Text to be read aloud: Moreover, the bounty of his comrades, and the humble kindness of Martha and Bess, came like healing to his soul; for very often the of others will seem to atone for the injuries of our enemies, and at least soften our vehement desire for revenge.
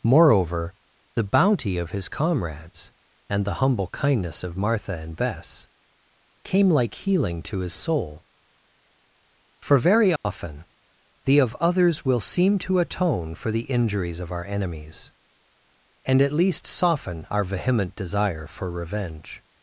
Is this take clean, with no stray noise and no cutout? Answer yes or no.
no